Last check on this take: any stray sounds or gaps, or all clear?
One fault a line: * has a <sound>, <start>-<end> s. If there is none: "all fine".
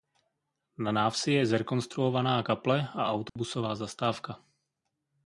* has a dropout, 3.3-3.4 s